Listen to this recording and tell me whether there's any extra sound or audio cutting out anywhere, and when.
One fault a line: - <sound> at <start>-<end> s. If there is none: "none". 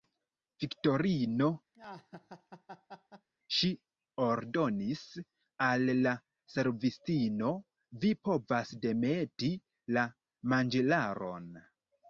- laugh at 1.7-3.3 s